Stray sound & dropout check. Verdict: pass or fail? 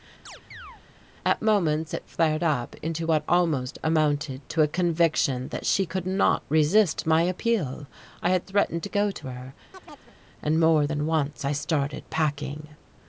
fail